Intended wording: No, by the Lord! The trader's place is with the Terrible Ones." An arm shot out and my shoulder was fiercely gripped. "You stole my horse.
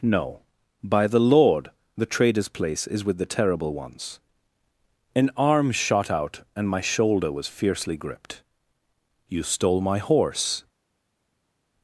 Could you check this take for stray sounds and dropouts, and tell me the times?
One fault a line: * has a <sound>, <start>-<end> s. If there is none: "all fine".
all fine